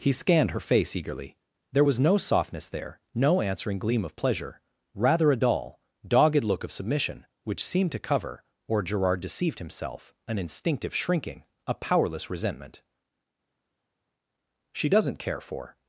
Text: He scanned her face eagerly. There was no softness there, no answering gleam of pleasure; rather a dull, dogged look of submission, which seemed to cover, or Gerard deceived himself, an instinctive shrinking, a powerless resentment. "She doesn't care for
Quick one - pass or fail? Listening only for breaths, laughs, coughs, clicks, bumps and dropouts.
pass